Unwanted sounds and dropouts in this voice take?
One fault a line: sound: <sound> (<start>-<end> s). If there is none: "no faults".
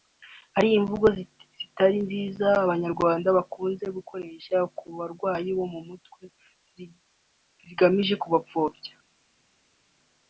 no faults